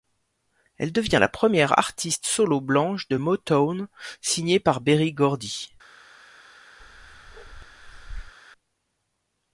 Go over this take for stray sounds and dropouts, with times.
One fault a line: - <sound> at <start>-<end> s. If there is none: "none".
- bark at 6.8-8.3 s